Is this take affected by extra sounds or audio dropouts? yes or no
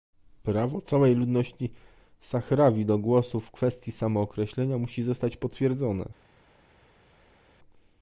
no